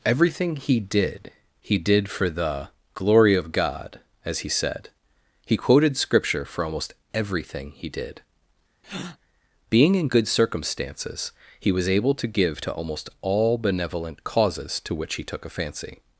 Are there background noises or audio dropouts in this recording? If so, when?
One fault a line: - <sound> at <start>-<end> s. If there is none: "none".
- breath at 8.8-9.2 s